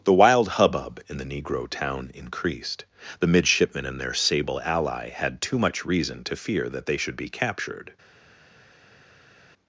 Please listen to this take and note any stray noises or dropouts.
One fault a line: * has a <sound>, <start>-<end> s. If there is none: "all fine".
all fine